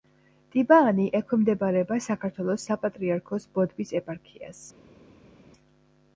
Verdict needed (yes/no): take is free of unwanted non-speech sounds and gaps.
yes